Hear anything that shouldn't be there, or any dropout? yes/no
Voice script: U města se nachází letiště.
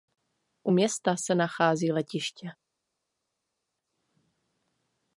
no